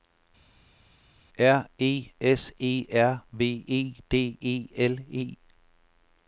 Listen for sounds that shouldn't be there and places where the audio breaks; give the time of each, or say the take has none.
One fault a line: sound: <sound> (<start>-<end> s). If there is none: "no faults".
no faults